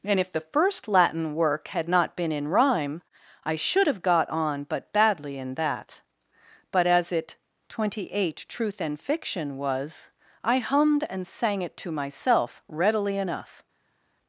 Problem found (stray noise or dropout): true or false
false